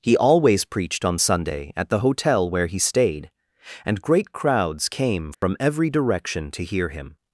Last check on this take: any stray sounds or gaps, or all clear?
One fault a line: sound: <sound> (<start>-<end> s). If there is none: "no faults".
sound: dropout (5.3-5.4 s)